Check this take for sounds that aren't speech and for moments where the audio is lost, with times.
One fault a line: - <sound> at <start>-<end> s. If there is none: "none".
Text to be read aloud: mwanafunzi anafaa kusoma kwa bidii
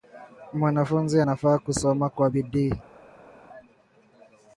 none